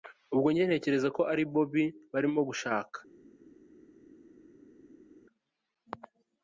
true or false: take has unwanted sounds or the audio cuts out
false